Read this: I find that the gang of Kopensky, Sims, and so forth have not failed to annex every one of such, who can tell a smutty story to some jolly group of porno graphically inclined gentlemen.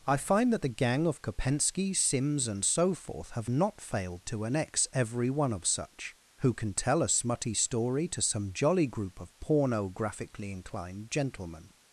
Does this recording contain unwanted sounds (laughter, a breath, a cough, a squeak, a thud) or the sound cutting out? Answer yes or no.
no